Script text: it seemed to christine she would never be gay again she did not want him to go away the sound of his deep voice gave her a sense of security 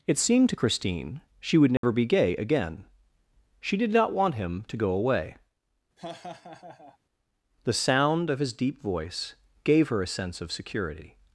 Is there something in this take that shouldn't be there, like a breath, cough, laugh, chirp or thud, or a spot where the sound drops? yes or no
yes